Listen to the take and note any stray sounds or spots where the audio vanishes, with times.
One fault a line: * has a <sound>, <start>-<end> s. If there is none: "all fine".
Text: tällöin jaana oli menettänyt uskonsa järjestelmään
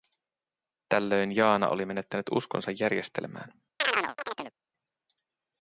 * has a chirp, 3.8-4.5 s